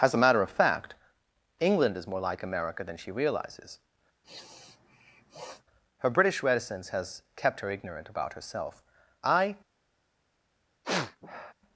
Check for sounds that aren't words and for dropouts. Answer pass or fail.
fail